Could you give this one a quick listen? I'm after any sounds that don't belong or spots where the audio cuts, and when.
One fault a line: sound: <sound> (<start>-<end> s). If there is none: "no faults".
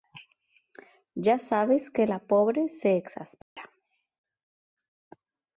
sound: dropout (3.4-3.6 s)